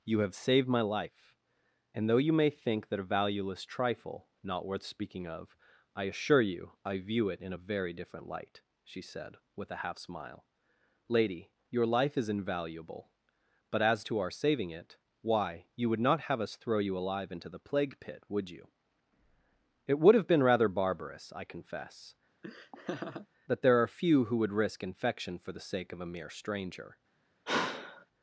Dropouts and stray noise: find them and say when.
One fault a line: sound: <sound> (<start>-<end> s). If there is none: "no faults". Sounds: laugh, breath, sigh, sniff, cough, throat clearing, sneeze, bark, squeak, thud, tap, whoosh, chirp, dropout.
sound: laugh (22.4-23.3 s)
sound: sigh (27.5-28.1 s)